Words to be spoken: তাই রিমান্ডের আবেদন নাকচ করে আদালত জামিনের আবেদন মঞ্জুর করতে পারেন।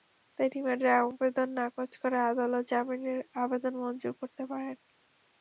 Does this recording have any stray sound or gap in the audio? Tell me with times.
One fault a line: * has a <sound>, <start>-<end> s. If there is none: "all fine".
all fine